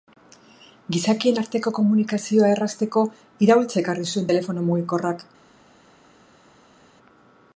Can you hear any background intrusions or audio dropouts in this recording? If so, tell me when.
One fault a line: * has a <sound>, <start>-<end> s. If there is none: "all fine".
all fine